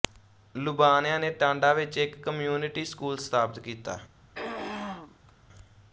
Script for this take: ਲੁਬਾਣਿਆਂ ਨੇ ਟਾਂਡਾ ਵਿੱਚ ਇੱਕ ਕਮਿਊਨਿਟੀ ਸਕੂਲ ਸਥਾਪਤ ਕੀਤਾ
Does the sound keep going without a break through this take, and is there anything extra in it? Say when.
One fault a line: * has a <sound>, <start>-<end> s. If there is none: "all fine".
* has a throat clearing, 4.3-5.3 s